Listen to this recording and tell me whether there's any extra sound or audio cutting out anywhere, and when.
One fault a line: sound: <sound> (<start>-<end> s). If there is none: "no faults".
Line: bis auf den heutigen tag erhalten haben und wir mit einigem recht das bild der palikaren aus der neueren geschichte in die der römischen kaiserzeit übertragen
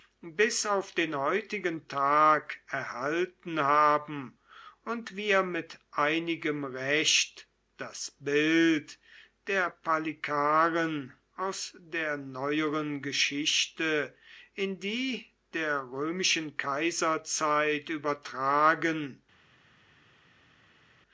no faults